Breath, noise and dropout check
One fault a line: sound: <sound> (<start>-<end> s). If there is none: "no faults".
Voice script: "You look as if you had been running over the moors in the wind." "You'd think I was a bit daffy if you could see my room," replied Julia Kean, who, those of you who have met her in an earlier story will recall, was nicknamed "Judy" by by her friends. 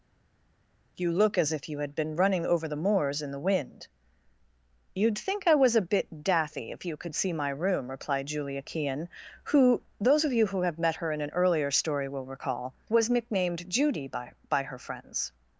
no faults